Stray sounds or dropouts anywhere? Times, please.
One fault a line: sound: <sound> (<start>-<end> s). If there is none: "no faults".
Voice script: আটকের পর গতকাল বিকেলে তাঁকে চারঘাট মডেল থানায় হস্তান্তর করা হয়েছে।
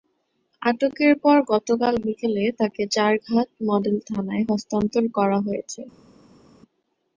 no faults